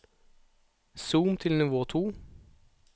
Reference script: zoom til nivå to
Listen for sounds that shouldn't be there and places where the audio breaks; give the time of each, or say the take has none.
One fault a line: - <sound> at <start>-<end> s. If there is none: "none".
none